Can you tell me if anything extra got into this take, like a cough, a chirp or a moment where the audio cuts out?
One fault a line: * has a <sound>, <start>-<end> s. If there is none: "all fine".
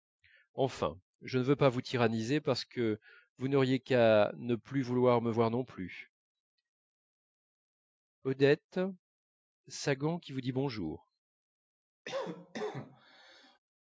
* has a cough, 12.1-13.6 s